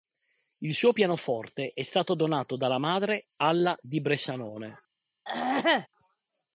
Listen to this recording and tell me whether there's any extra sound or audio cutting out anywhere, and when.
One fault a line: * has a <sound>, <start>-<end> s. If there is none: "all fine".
* has a throat clearing, 5.3-5.9 s